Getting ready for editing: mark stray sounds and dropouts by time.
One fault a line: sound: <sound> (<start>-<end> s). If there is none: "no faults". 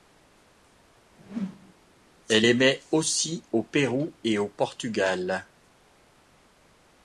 sound: whoosh (1.2-1.7 s)